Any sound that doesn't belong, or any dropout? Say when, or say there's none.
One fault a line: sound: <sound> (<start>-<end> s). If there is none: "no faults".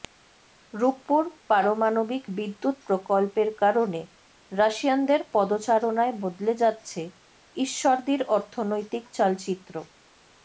no faults